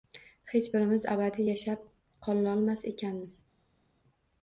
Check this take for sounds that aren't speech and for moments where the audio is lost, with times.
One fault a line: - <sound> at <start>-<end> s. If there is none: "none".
none